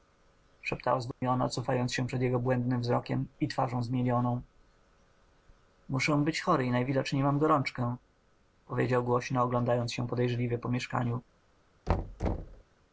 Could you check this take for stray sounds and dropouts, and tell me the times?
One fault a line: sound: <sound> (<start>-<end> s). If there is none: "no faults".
sound: dropout (1.1-1.2 s)
sound: thud (11.9-12.6 s)